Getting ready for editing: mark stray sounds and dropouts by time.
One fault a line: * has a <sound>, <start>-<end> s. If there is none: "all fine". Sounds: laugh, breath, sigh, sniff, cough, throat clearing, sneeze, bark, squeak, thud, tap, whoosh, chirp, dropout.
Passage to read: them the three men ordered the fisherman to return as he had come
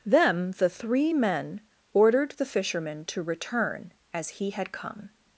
all fine